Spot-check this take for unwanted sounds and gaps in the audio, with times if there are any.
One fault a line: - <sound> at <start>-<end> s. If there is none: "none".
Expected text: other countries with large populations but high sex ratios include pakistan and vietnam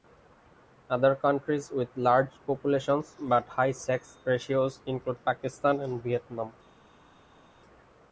none